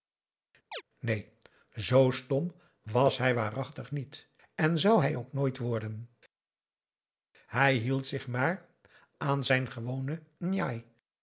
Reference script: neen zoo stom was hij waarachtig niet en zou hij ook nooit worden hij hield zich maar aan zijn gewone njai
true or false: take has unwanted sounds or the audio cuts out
true